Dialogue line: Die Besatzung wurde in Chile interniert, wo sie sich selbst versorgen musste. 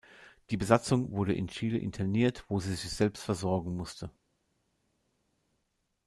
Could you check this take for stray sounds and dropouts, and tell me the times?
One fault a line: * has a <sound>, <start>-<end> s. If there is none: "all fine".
all fine